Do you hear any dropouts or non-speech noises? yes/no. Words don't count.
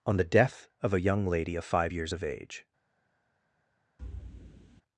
yes